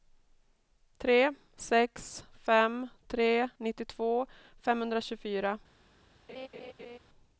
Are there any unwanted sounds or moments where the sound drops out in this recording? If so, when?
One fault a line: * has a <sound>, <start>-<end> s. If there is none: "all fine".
* has a laugh, 6.3-7.0 s